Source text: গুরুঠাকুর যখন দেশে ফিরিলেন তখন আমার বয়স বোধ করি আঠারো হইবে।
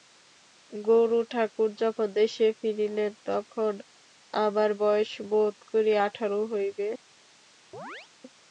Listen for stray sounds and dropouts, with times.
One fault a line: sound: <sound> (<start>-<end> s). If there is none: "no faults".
sound: chirp (7.7-8.1 s)